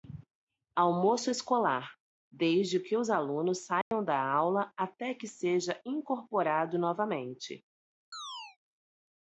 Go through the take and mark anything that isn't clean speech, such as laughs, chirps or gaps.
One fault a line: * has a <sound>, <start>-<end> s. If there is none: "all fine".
* has a dropout, 3.8-3.9 s
* has a chirp, 8.1-8.6 s